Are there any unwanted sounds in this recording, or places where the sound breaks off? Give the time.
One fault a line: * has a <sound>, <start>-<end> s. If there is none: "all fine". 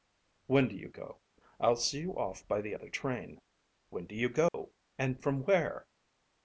* has a dropout, 4.5-4.5 s